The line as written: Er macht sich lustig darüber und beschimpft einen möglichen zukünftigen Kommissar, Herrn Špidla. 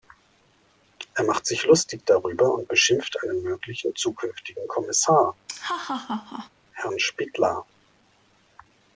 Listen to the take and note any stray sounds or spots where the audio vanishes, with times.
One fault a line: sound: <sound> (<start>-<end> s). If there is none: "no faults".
sound: laugh (5.5-6.5 s)